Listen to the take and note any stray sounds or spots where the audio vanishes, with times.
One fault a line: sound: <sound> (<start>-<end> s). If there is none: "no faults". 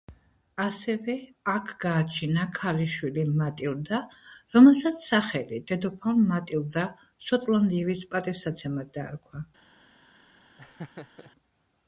sound: laugh (10.6-11.3 s)